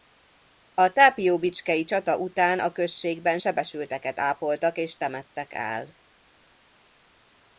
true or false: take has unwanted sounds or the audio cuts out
false